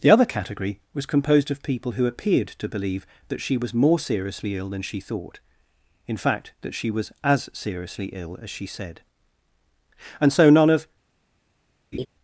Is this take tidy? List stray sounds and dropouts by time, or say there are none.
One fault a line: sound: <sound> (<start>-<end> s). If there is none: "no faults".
sound: laugh (11.9-12.1 s)